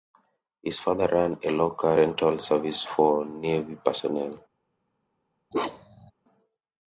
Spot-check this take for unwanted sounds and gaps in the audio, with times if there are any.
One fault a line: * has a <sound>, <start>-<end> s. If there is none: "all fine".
* has a bark, 5.5-6.1 s